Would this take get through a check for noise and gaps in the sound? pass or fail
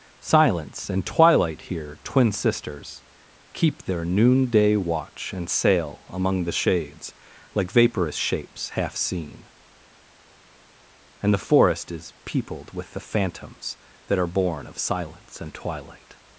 pass